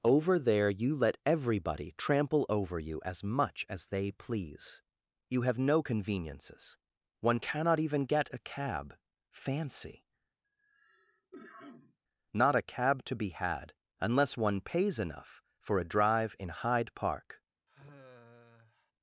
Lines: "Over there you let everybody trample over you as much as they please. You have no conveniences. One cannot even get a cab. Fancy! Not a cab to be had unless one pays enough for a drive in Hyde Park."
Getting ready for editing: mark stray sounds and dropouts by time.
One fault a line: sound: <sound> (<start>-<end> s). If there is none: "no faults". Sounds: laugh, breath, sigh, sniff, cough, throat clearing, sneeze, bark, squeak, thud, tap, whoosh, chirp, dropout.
sound: cough (10.4-12.0 s)
sound: sigh (17.7-18.9 s)